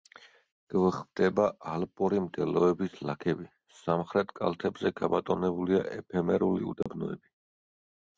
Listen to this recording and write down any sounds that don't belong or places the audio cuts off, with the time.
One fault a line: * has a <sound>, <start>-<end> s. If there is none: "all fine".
* has a dropout, 6.8-6.9 s